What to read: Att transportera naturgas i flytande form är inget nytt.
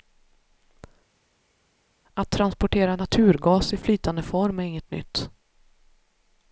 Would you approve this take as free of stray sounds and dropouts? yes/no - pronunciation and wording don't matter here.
yes